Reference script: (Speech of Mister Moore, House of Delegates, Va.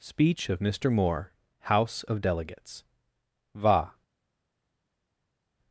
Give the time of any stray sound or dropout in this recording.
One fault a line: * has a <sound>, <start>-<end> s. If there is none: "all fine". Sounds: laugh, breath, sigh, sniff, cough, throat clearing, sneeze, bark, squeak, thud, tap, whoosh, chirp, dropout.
all fine